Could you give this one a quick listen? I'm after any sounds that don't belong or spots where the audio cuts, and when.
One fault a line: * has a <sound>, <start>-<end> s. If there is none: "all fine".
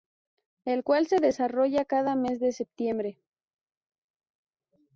all fine